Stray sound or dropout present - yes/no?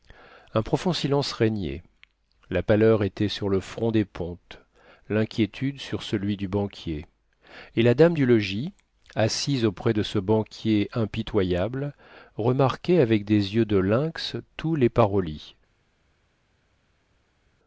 no